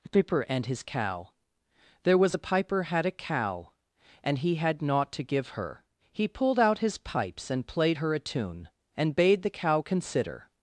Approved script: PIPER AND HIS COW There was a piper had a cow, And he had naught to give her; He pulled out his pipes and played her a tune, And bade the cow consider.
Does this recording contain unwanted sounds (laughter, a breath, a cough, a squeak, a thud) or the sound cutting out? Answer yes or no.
no